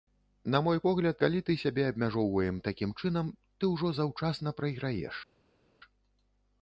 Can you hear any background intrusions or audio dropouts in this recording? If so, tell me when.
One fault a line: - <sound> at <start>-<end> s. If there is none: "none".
none